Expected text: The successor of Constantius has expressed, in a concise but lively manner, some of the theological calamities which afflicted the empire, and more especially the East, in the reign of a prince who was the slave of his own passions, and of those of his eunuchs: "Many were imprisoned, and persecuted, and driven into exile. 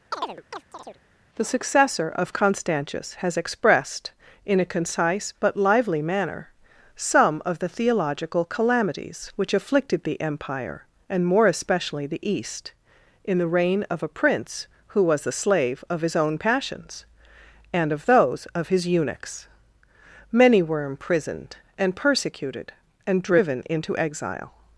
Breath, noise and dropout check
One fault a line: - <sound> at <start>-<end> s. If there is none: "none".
- chirp at 0.1-1.0 s